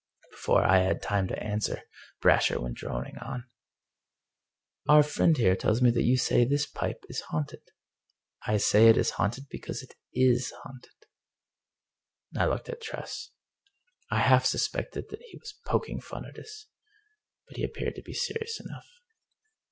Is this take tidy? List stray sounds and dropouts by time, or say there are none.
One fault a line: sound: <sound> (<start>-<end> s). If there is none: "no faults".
no faults